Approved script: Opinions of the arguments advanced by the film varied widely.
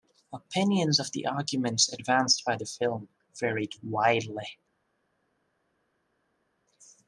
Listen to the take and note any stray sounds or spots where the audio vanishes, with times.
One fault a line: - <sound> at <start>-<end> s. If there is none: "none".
none